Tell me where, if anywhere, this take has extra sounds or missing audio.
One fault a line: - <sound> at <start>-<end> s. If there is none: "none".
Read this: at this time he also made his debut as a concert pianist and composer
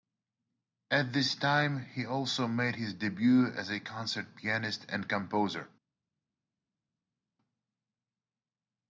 none